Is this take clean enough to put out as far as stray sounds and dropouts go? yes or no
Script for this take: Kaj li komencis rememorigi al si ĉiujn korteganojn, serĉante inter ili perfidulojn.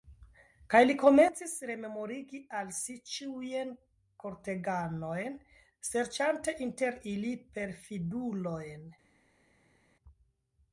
yes